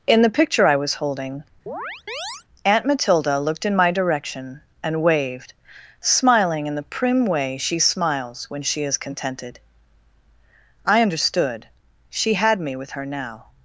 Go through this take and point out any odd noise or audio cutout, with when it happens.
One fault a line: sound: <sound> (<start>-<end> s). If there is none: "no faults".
sound: chirp (1.7-2.4 s)